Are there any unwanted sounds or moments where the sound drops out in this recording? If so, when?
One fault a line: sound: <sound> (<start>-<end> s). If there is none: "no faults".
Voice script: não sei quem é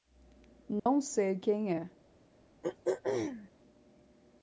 sound: dropout (0.8-0.9 s)
sound: throat clearing (2.6-3.5 s)